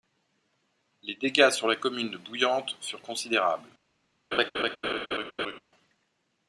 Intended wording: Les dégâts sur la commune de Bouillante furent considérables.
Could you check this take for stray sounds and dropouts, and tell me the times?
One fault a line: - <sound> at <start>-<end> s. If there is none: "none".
- laugh at 4.3-5.6 s